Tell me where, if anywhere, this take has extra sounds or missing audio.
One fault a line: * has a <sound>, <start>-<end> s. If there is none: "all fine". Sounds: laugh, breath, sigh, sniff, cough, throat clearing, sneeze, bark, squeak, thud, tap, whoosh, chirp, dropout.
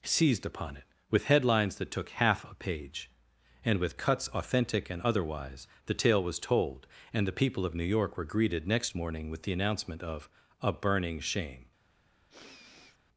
* has a sniff, 12.3-13.0 s